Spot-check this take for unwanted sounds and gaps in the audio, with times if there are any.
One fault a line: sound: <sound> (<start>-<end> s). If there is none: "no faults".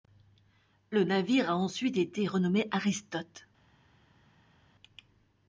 no faults